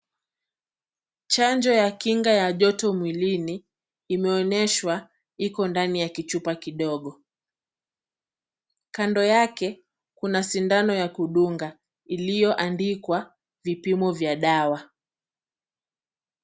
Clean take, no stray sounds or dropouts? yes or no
yes